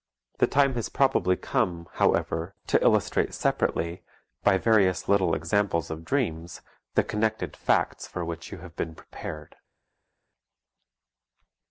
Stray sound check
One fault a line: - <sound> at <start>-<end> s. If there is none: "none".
none